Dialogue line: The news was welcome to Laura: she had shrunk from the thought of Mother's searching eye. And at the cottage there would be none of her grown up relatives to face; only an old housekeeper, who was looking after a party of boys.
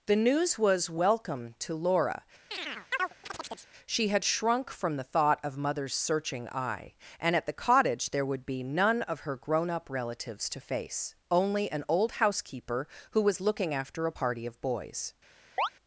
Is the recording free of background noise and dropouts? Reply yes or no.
no